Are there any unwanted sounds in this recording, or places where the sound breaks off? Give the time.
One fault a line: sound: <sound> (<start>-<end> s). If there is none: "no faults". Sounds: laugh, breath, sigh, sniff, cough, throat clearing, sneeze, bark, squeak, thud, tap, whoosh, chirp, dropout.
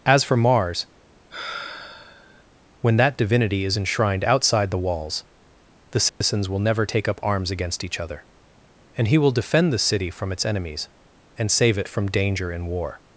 sound: sigh (1.3-2.4 s)
sound: dropout (6.1-6.2 s)